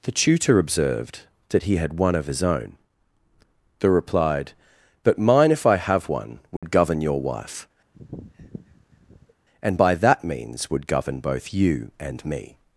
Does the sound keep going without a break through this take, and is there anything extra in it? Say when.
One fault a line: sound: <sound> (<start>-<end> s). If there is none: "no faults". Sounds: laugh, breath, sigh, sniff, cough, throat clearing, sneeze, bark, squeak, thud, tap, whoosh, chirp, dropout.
sound: dropout (6.6-6.6 s)
sound: sniff (7.9-9.3 s)